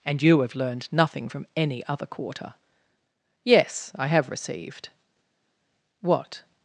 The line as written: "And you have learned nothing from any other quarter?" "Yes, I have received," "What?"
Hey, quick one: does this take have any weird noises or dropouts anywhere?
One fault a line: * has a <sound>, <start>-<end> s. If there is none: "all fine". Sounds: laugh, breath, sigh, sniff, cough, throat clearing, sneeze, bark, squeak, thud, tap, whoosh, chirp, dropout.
all fine